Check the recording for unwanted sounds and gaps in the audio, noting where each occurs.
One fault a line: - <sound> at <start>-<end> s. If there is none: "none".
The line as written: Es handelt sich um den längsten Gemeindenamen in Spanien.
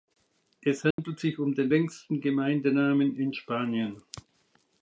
- dropout at 0.9-1.0 s